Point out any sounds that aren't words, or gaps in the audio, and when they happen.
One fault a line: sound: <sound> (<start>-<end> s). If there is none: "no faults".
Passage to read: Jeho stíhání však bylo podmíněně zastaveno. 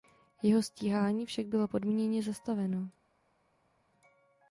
no faults